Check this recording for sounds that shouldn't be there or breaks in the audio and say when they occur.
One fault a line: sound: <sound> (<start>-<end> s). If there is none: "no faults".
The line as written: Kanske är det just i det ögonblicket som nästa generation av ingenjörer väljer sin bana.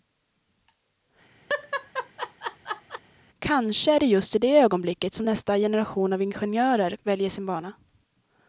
sound: laugh (1.5-3.0 s)